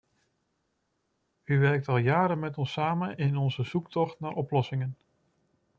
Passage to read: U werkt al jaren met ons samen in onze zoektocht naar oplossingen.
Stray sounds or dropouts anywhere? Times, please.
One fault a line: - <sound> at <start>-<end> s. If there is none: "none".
none